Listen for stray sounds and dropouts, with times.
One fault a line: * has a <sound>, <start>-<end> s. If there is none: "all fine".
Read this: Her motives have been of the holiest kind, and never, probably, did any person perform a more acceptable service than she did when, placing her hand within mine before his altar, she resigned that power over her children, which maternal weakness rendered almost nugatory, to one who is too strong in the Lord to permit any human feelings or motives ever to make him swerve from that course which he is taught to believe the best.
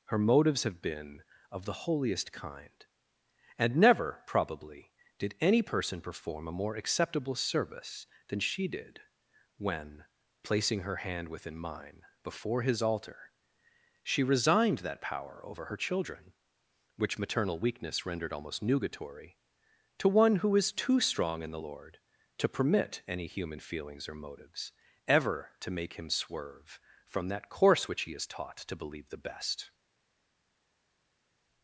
all fine